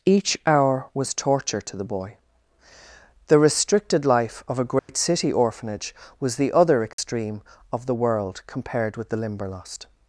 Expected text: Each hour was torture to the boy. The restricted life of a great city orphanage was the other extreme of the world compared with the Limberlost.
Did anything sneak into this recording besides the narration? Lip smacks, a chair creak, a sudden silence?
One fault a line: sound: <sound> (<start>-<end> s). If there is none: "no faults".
sound: dropout (4.8-4.9 s)
sound: dropout (6.9-7.0 s)